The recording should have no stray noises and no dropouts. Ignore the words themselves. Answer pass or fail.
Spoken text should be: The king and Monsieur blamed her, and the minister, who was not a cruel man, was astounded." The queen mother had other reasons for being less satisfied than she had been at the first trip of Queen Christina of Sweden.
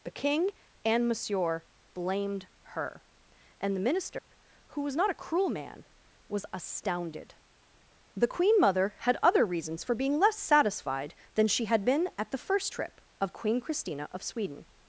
fail